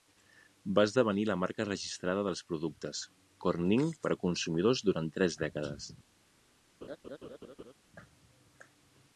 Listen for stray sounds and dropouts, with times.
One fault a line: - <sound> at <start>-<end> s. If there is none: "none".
- laugh at 6.8-7.7 s